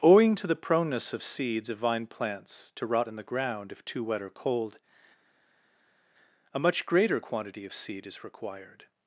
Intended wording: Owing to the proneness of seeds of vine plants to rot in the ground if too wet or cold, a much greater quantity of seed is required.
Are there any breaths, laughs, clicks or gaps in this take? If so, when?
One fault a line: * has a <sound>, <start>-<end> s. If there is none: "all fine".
all fine